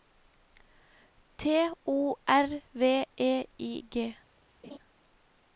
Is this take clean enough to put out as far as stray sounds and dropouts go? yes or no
no